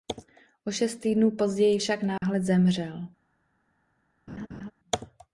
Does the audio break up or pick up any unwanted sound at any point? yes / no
yes